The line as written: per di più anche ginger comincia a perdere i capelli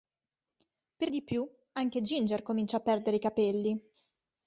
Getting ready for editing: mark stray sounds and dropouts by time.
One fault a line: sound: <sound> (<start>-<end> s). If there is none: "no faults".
no faults